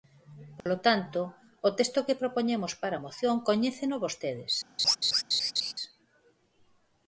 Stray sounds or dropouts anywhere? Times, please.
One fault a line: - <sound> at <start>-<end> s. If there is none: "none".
- dropout at 0.6-0.7 s
- laugh at 4.8-5.7 s